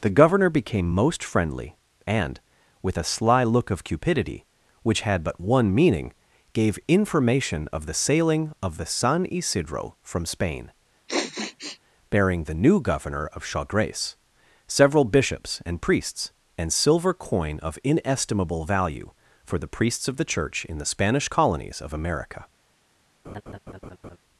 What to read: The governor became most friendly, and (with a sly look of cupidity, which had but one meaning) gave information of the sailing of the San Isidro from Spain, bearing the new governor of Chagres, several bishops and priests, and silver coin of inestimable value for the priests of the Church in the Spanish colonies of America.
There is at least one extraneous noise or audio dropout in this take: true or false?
true